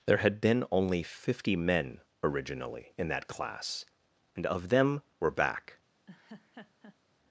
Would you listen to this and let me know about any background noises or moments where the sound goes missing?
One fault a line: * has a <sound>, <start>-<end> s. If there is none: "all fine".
* has a laugh, 6.1-7.0 s